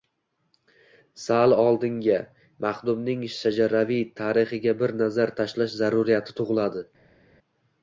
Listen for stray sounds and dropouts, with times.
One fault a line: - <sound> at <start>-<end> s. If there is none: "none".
none